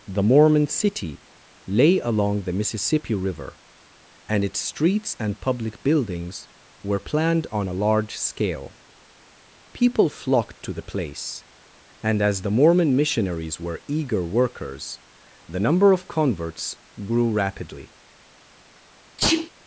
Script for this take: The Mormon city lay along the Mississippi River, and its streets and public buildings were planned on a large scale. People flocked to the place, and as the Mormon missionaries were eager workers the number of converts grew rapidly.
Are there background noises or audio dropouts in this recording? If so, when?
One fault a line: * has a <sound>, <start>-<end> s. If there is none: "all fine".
* has a sneeze, 19.2-19.5 s